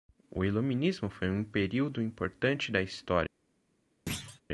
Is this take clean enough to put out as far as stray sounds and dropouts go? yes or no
no